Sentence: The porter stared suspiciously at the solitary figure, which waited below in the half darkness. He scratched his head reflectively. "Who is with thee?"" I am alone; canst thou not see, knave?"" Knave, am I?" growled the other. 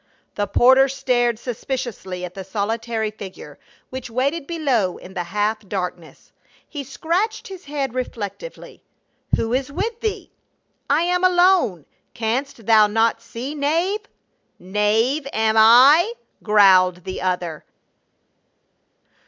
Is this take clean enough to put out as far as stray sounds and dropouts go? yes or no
yes